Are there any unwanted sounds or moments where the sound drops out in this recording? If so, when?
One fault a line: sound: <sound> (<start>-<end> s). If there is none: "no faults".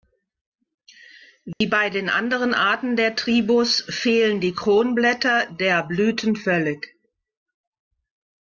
sound: dropout (1.5-1.6 s)